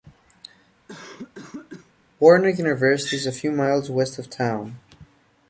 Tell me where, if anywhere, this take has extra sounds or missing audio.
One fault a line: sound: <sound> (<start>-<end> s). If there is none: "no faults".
sound: cough (0.9-1.9 s)